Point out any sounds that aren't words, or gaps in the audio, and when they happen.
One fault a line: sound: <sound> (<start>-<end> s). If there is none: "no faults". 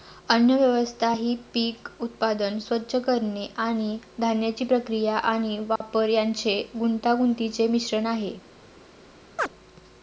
sound: dropout (5.8-5.8 s)
sound: chirp (9.4-9.5 s)